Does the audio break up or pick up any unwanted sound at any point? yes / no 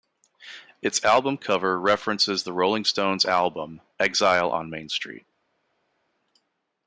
no